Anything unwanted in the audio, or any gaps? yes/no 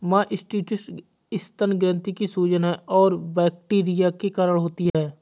yes